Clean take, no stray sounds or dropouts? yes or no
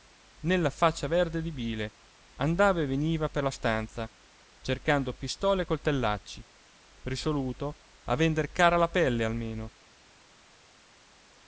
yes